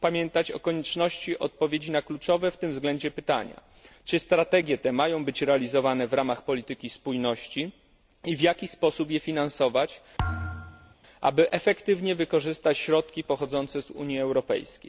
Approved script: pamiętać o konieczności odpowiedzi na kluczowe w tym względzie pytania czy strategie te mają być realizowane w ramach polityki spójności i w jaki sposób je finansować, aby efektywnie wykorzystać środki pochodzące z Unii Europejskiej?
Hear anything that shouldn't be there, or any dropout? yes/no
yes